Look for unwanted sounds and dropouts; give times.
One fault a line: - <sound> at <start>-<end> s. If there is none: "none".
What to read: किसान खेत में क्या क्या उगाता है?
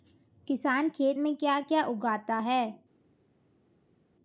none